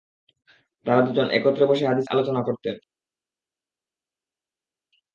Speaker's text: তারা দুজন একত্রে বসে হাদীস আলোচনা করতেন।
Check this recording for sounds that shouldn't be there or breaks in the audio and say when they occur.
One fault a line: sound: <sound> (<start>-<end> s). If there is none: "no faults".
no faults